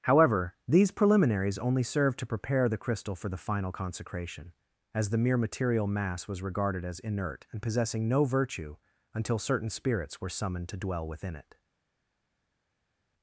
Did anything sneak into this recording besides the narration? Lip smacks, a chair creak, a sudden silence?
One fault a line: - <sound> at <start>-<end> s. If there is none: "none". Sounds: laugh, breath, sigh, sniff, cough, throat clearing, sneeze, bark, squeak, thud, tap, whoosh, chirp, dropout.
none